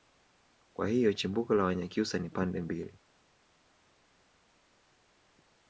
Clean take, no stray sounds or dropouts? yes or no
yes